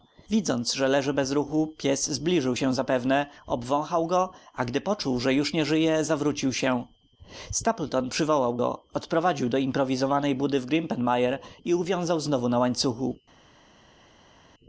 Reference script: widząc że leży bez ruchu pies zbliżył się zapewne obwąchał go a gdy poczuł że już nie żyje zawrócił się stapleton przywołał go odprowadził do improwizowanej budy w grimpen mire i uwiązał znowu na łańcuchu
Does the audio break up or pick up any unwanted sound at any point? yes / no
no